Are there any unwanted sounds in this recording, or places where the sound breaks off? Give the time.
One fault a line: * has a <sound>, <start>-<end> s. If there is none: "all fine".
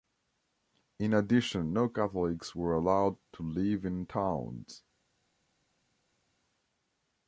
all fine